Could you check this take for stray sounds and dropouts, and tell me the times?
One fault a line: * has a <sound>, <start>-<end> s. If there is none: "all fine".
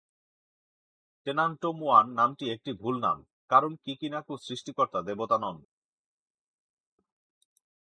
all fine